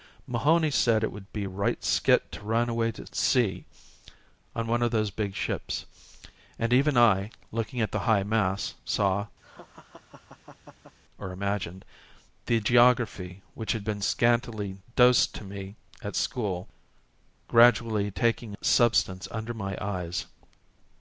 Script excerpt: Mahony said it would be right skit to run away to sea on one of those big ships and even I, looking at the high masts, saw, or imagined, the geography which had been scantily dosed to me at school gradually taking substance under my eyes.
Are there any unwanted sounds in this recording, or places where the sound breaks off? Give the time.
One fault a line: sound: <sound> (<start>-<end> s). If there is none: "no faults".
sound: laugh (9.4-11.0 s)